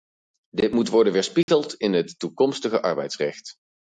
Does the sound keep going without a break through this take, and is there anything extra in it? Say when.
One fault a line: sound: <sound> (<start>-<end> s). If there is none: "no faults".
sound: dropout (1.4-1.5 s)